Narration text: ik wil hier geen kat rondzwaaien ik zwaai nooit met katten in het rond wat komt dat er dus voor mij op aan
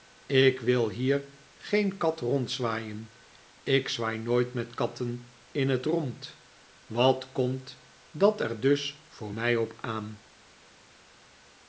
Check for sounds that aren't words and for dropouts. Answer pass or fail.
pass